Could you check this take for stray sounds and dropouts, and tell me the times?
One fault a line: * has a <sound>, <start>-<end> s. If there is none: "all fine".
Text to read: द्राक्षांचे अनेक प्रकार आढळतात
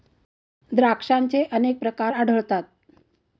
all fine